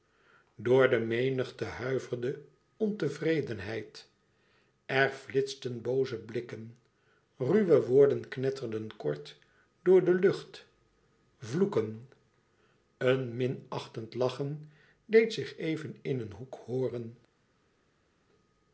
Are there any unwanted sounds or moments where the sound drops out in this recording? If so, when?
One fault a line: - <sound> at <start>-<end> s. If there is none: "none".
none